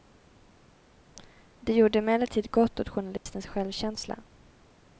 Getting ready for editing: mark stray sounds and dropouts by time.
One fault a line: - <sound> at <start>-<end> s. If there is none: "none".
- dropout at 3.2-3.3 s